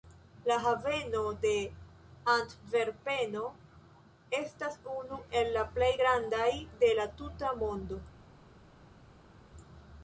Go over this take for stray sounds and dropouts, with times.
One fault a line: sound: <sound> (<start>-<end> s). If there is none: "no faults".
no faults